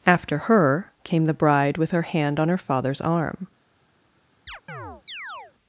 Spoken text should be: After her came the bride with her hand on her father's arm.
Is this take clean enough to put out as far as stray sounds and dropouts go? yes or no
no